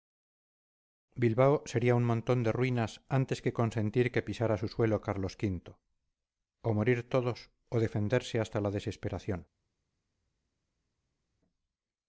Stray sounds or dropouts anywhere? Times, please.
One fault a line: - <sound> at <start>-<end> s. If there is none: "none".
none